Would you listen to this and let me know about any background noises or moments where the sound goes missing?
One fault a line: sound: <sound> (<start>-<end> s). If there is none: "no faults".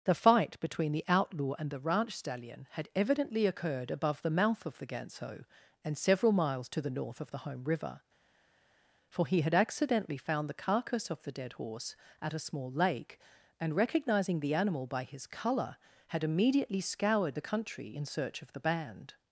no faults